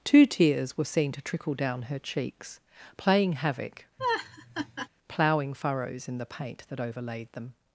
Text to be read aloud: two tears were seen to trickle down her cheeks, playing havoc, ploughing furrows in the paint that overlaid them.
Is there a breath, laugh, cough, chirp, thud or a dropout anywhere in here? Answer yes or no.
yes